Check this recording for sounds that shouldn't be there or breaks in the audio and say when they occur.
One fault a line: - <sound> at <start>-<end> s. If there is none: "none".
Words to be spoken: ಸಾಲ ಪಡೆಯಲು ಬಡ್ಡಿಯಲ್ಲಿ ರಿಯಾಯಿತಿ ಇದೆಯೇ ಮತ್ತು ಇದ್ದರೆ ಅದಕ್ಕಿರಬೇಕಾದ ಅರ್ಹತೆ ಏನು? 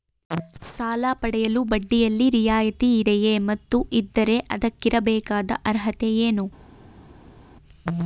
none